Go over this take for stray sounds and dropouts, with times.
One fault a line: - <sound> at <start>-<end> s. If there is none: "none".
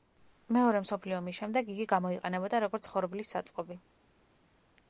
none